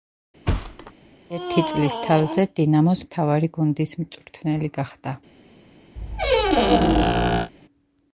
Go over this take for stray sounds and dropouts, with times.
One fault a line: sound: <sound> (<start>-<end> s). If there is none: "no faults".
sound: thud (0.5-0.9 s)
sound: squeak (6.0-7.5 s)